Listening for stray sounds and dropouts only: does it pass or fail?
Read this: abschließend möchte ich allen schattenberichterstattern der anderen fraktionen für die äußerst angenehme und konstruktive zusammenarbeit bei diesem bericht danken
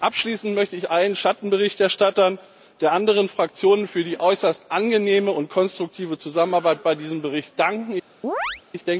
fail